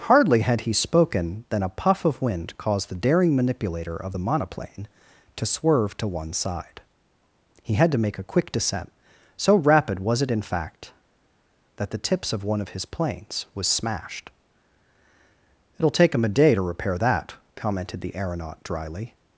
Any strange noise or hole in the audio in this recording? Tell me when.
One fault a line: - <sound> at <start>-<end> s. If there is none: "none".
none